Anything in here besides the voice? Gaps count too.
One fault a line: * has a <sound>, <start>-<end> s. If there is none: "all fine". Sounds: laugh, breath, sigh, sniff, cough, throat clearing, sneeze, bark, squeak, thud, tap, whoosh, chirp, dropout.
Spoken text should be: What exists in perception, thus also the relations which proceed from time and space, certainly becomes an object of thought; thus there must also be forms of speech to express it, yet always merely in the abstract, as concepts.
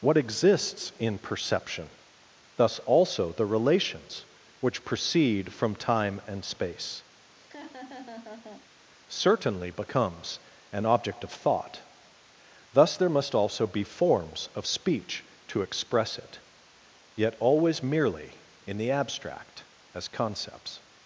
* has a laugh, 7.3-8.7 s